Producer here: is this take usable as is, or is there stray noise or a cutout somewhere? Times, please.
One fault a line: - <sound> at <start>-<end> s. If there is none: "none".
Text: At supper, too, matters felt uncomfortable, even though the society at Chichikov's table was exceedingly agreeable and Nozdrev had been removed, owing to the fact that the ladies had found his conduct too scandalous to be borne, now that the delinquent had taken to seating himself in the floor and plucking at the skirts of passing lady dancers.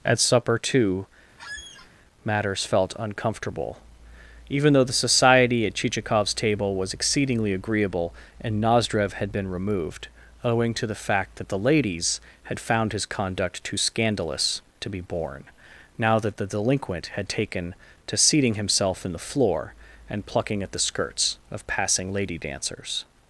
- squeak at 1.4-1.9 s